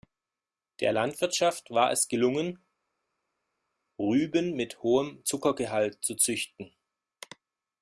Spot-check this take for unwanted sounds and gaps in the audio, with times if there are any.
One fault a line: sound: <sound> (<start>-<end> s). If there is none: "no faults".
no faults